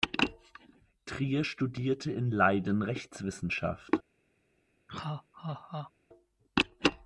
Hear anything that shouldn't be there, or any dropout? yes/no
yes